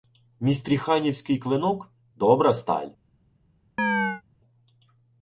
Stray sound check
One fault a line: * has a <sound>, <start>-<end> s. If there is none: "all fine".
* has a chirp, 3.8-4.2 s